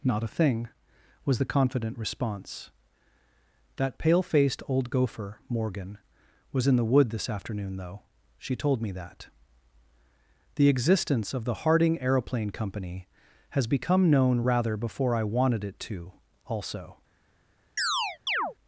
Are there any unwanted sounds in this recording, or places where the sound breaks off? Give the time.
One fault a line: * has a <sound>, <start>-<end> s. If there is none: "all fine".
* has a chirp, 17.8-18.5 s